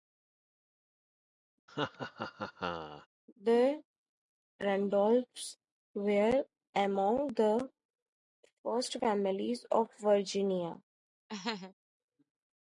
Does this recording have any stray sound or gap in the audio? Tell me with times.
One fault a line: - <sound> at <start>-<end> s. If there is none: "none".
- laugh at 1.7-3.1 s
- laugh at 11.3-11.7 s